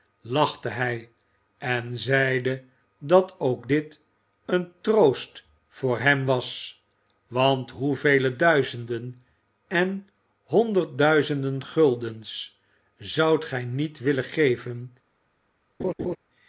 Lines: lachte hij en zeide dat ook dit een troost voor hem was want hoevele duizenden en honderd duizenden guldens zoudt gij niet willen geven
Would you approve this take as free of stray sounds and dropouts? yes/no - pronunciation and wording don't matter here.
no